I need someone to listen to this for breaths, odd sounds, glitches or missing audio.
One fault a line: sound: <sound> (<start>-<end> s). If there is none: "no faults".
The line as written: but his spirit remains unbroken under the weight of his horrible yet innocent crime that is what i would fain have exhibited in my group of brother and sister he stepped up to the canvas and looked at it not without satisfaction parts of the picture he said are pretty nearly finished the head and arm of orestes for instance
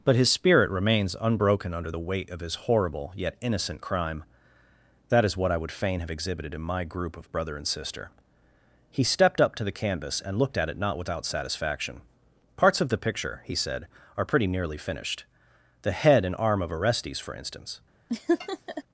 sound: laugh (18.1-18.8 s)